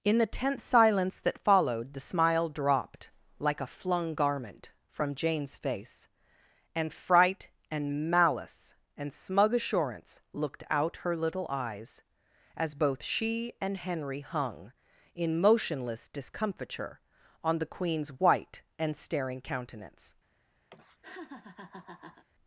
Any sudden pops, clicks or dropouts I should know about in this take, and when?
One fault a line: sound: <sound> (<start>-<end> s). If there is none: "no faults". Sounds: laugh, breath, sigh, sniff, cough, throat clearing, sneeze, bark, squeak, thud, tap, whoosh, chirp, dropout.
sound: laugh (20.7-22.2 s)